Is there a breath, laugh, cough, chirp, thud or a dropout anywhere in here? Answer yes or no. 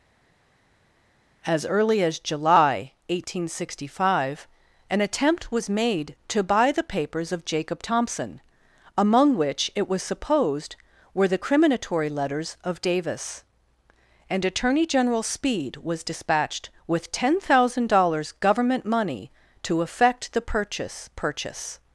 no